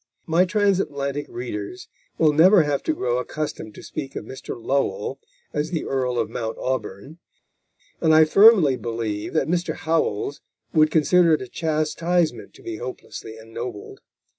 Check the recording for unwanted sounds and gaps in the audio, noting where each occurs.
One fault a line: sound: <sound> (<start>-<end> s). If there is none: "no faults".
no faults